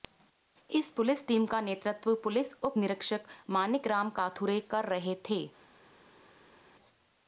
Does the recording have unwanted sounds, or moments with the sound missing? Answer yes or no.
no